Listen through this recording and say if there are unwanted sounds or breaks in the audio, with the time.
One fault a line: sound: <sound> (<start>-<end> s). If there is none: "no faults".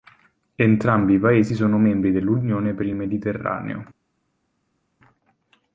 no faults